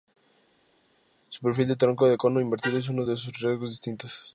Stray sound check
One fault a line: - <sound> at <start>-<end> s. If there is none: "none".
none